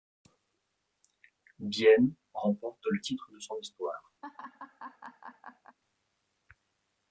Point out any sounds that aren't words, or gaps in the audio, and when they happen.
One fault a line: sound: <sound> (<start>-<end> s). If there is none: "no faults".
sound: laugh (4.2-5.8 s)